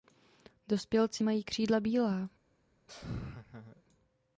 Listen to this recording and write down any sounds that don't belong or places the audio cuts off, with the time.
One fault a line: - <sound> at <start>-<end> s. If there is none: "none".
- laugh at 2.9-3.8 s